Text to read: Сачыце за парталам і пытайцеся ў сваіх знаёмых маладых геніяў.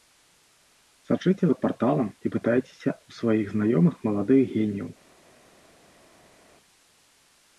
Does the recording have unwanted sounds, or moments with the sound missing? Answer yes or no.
no